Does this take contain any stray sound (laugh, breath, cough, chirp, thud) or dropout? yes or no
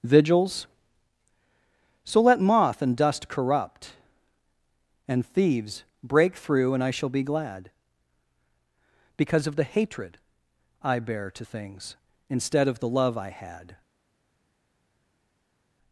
no